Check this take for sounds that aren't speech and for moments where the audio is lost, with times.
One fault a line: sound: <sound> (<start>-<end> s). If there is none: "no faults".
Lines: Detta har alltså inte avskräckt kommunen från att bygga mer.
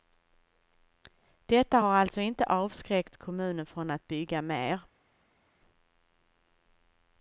no faults